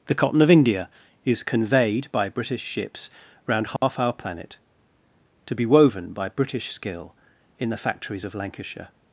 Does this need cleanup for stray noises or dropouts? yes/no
yes